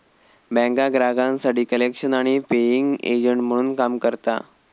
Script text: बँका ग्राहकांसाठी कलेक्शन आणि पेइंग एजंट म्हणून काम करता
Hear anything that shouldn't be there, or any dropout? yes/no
no